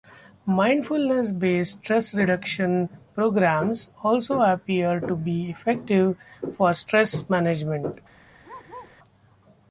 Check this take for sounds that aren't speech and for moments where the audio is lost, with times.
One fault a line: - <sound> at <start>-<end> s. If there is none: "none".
- bark at 8.4-9.0 s